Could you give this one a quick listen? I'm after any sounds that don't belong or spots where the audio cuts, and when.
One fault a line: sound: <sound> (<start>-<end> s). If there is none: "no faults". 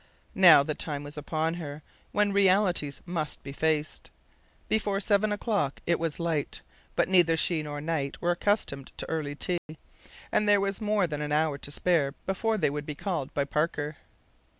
sound: dropout (9.6-9.7 s)